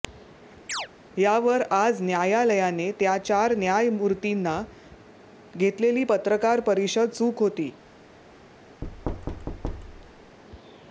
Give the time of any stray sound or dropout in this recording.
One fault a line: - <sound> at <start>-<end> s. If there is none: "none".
- chirp at 0.7-0.9 s
- thud at 8.8-10.4 s